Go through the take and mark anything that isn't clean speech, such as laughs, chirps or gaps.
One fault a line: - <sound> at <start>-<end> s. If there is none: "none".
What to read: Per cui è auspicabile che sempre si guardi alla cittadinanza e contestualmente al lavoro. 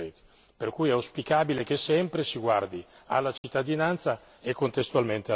- dropout at 3.4-3.4 s